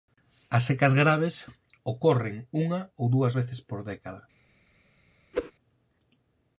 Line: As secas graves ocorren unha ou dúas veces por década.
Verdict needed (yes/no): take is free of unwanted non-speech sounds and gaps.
no